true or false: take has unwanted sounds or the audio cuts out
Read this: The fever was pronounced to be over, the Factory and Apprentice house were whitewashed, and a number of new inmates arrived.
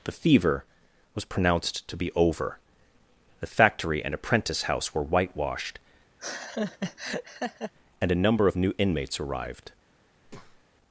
true